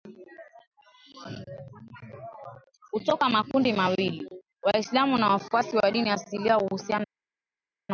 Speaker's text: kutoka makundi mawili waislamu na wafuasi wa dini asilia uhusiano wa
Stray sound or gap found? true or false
false